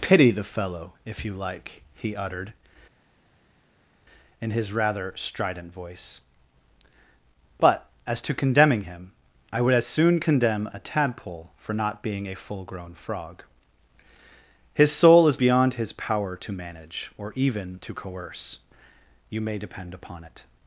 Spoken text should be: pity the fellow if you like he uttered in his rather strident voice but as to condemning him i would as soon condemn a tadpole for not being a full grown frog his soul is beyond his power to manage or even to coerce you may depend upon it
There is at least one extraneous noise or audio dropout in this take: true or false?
false